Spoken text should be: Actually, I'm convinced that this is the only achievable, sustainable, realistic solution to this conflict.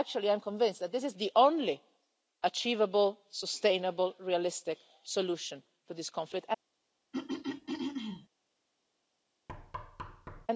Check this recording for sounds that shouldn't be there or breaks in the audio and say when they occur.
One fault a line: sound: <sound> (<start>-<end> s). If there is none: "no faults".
sound: throat clearing (7.1-8.3 s)
sound: thud (9.5-10.5 s)